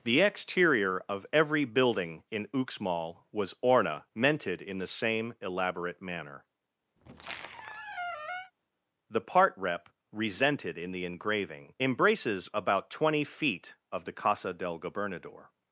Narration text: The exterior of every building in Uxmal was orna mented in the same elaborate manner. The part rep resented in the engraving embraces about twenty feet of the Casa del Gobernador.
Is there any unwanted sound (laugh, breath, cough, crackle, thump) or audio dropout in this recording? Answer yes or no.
yes